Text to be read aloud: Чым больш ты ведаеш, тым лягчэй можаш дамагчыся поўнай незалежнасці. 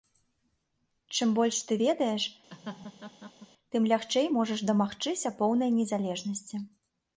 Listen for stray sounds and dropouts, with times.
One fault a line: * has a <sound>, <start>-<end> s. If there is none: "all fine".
* has a laugh, 2.5-3.5 s